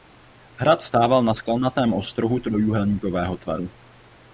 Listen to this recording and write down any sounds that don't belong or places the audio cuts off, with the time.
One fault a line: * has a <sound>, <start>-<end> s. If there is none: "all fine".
all fine